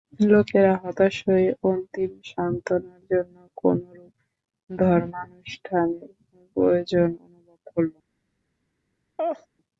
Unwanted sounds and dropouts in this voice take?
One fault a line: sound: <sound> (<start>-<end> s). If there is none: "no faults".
sound: laugh (9.2-9.5 s)